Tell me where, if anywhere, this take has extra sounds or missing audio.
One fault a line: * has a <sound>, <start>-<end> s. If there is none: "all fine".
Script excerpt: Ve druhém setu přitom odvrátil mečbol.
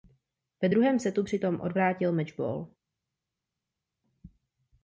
all fine